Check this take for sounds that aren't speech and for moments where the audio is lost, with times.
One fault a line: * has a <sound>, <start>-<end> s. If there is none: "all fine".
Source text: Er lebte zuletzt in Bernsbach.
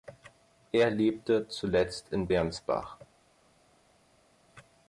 all fine